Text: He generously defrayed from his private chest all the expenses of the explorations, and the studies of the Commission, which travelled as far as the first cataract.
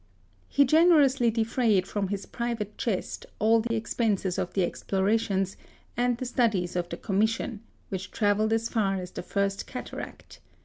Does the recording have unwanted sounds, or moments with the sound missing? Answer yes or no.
yes